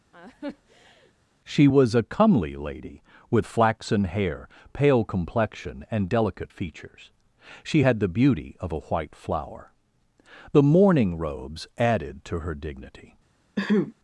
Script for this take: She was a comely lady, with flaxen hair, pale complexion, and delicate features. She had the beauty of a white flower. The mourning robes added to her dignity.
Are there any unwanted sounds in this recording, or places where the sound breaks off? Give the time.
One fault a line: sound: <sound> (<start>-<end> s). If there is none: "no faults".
sound: laugh (0.1-1.1 s)
sound: throat clearing (13.6-13.9 s)